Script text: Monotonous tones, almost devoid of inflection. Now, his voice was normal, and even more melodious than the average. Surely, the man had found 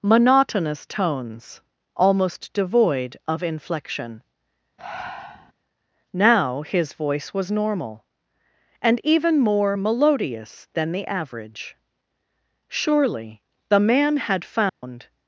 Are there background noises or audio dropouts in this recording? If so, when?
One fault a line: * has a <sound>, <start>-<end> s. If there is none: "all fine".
* has a breath, 4.8-5.5 s
* has a dropout, 14.7-14.8 s